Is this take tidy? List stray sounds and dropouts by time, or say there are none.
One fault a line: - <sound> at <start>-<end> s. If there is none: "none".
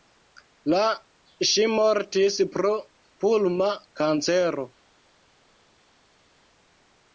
none